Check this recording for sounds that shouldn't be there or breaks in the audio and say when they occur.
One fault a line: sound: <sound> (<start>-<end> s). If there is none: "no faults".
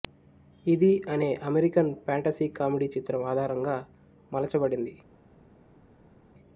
no faults